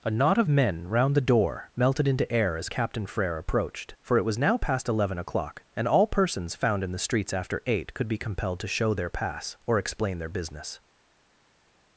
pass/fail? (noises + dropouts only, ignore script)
pass